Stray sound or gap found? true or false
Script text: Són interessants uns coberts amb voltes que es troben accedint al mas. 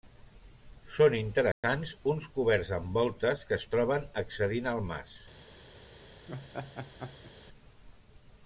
true